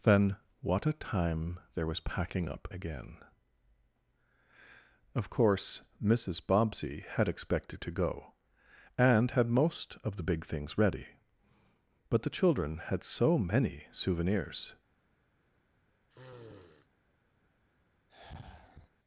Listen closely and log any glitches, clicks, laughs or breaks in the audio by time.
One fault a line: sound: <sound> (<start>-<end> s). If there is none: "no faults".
sound: sniff (16.1-16.9 s)
sound: sigh (18.1-18.9 s)